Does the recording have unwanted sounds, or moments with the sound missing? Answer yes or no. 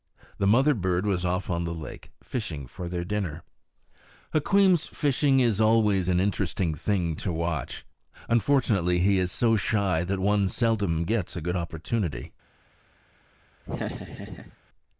yes